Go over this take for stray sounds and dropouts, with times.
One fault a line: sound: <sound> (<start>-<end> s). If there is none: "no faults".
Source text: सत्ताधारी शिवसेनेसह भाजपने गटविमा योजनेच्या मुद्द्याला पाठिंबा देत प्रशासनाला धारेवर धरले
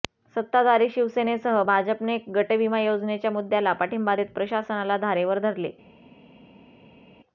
no faults